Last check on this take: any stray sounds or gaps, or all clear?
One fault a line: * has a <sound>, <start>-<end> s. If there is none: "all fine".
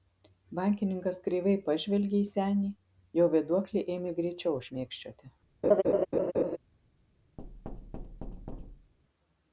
* has a laugh, 5.6-6.6 s
* has a thud, 7.4-8.9 s